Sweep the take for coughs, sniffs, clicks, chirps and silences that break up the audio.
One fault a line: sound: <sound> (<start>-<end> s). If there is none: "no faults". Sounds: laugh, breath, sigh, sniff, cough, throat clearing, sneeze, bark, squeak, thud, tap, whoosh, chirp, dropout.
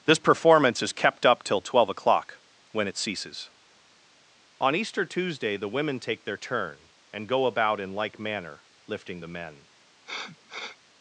sound: sniff (10.0-10.8 s)